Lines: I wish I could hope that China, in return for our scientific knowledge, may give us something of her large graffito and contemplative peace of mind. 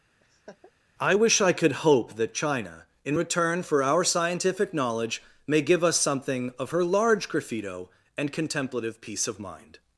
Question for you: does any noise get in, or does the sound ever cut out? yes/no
yes